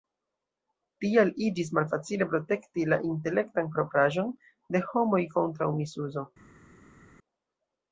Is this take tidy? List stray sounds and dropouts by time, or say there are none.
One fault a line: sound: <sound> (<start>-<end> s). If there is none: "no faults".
no faults